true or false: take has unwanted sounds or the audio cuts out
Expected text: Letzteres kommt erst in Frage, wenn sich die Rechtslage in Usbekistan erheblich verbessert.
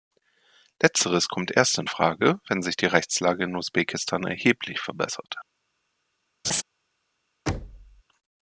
true